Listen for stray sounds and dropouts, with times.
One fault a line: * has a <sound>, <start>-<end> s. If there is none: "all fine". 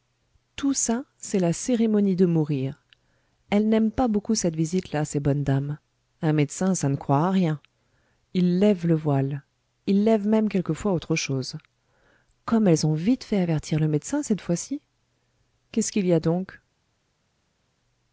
all fine